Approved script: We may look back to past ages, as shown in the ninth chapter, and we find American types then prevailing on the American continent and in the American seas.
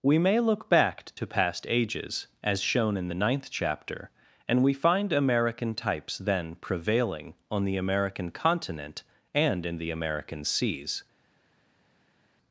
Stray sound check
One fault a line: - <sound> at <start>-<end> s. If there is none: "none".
none